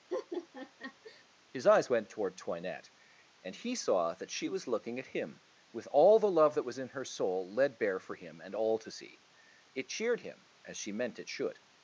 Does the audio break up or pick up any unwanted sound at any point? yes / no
yes